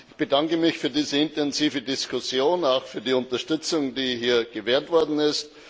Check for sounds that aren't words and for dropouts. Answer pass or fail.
pass